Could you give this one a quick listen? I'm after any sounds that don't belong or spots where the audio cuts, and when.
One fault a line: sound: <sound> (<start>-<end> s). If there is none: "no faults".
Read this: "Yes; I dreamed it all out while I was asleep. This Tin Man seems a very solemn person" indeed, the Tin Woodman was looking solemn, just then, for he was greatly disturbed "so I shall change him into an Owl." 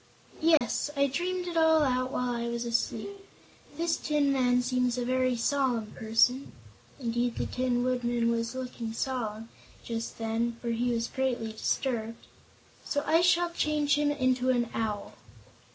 sound: dropout (0.6-0.6 s)